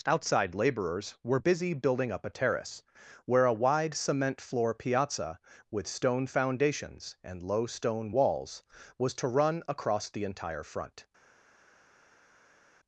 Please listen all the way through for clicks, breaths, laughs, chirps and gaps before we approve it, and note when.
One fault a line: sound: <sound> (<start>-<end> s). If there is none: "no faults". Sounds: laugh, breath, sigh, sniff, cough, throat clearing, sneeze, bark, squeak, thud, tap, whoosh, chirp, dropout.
no faults